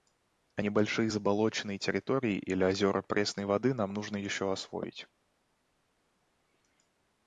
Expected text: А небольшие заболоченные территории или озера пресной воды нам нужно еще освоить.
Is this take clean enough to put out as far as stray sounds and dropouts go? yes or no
yes